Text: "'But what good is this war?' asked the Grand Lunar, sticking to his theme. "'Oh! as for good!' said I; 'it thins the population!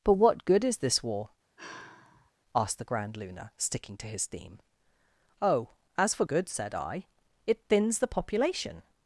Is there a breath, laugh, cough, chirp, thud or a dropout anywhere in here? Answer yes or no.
yes